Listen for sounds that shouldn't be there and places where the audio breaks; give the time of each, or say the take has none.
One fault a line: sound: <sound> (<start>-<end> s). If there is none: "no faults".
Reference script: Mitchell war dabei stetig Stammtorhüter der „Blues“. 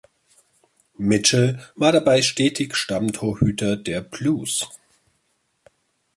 no faults